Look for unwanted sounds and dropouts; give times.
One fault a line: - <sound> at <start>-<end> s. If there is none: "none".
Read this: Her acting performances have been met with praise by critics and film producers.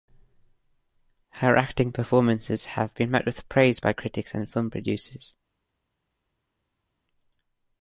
none